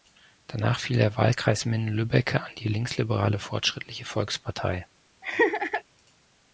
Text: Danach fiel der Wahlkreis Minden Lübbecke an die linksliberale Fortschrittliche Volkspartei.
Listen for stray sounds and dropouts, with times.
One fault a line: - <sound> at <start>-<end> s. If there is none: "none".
- laugh at 5.2-5.8 s